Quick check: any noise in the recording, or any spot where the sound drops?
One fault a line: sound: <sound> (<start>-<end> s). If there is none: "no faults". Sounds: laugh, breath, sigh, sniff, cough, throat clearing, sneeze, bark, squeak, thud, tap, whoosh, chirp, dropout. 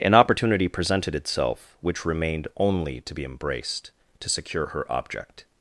no faults